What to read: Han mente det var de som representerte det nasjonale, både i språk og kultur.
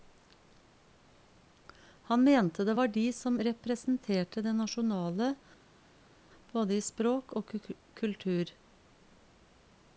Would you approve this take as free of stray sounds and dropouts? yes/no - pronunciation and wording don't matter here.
yes